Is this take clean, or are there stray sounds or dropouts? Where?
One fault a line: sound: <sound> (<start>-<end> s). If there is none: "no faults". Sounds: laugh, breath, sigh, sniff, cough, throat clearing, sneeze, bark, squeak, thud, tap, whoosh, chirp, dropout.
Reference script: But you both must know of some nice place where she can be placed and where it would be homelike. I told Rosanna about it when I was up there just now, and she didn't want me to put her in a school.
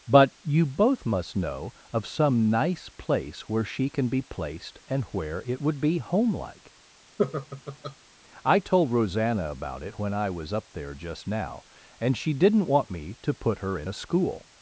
sound: laugh (7.2-8.0 s)